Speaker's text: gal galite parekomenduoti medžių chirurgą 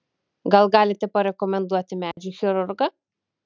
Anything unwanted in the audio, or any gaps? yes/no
yes